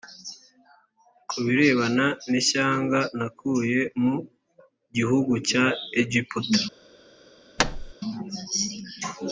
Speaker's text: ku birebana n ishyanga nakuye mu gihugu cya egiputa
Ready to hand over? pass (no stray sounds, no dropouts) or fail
fail